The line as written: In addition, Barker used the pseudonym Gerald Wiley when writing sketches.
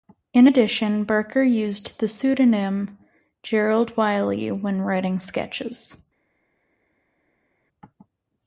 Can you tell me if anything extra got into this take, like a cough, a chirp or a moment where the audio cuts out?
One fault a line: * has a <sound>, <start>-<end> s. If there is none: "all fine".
all fine